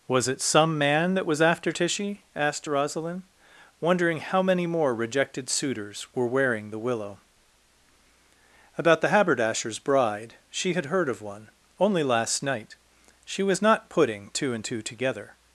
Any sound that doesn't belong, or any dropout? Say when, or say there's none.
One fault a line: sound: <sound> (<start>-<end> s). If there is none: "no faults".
no faults